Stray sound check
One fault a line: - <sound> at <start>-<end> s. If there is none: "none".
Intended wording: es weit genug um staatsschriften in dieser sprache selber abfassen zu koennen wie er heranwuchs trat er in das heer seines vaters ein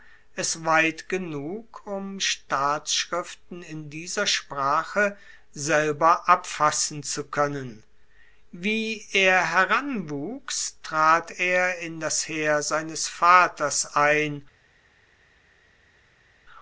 none